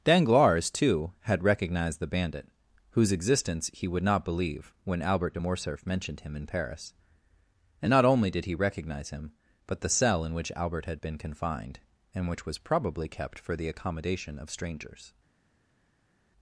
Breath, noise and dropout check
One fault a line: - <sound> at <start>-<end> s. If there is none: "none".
none